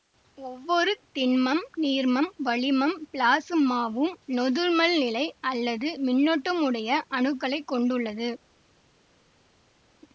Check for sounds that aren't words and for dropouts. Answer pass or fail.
pass